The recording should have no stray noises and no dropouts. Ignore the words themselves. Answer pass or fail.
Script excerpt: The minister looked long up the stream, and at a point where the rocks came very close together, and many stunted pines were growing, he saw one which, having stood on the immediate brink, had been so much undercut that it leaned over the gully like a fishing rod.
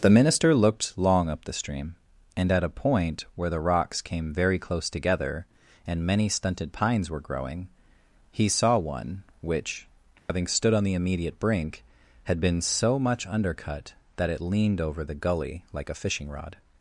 fail